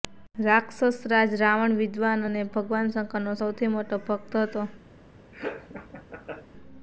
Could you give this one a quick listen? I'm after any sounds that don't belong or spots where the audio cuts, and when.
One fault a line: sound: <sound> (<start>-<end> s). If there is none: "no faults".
sound: laugh (5.3-6.5 s)